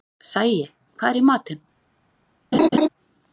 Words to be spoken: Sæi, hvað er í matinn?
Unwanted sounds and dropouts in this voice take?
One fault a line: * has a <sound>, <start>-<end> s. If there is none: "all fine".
* has a laugh, 2.5-2.9 s